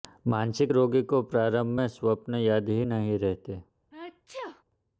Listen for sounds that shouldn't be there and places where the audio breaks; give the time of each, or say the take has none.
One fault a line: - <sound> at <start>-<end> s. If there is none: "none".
- sneeze at 3.9-4.6 s